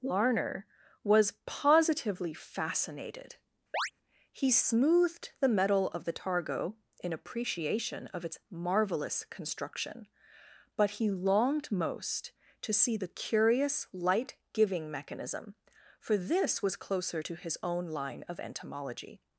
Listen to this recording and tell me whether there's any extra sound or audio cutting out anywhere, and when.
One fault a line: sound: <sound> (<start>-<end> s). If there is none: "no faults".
sound: chirp (3.7-3.9 s)